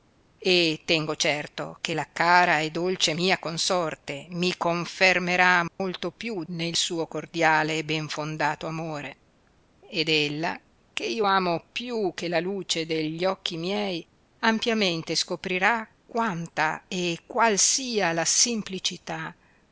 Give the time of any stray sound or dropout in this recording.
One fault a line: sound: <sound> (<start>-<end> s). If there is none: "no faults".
sound: dropout (5.7-5.8 s)